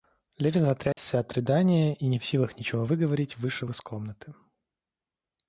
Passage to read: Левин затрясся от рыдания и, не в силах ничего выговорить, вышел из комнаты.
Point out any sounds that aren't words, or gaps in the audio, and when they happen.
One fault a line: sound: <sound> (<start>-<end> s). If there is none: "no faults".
sound: dropout (0.9-1.0 s)